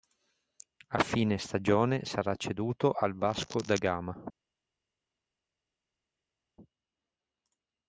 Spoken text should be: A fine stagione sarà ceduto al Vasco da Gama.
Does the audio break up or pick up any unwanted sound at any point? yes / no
no